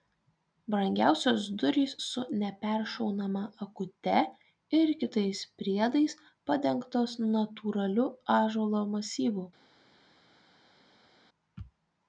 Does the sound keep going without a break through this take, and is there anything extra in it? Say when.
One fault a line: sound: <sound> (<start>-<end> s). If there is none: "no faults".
no faults